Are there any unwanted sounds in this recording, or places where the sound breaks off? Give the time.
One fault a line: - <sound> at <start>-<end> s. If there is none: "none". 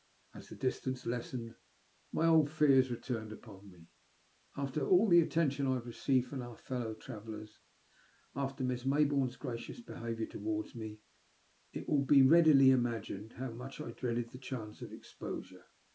none